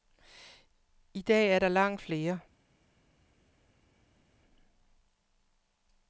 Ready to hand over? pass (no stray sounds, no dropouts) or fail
pass